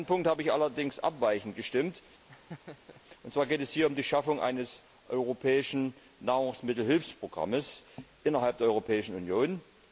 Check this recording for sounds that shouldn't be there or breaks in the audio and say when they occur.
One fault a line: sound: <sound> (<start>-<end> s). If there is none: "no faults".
sound: laugh (2.3-3.0 s)